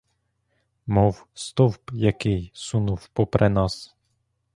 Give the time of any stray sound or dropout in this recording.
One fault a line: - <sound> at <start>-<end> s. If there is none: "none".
none